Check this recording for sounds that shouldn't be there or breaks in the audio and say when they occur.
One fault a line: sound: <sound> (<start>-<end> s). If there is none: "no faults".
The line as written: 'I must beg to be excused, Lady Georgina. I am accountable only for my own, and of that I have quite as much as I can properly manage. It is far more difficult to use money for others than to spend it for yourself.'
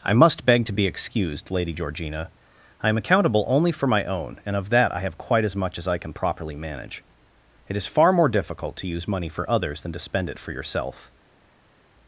no faults